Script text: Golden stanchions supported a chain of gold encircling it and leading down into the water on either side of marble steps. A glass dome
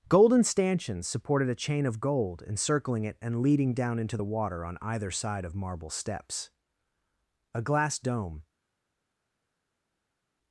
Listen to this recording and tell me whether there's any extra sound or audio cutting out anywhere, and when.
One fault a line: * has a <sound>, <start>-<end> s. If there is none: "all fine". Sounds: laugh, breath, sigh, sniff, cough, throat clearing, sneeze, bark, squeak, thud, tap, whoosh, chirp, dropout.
all fine